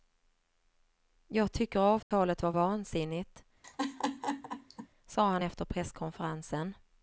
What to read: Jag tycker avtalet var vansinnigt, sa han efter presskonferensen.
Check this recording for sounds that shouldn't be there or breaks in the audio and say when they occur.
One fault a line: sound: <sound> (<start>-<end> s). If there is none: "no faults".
sound: dropout (2.0-2.1 s)
sound: laugh (3.6-4.9 s)